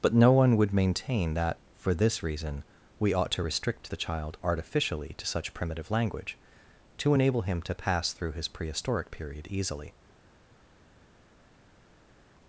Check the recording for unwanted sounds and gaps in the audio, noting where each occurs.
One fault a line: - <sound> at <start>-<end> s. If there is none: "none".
none